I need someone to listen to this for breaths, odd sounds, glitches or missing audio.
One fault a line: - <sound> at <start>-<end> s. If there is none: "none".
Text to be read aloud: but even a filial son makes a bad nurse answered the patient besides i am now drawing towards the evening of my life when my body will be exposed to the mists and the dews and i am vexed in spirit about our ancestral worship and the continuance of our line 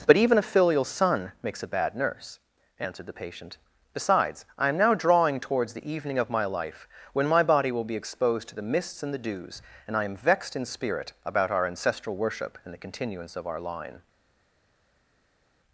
none